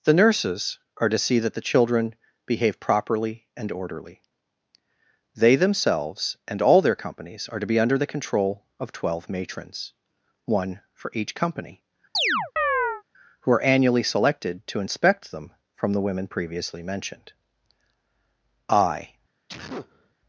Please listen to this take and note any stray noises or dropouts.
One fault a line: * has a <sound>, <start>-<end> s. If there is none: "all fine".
* has a chirp, 12.1-13.0 s
* has a sneeze, 19.5-20.2 s